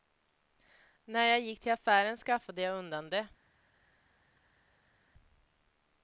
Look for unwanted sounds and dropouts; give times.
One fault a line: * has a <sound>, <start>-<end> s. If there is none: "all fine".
all fine